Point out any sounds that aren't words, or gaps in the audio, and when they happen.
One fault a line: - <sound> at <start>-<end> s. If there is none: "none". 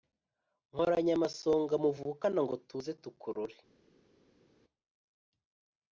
none